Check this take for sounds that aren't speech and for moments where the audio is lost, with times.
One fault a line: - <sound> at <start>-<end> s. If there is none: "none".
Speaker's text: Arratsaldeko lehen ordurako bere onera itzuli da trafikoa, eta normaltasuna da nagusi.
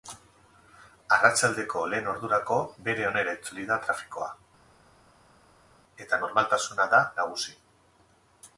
none